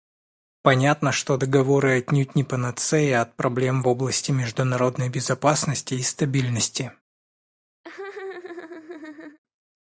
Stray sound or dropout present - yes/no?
yes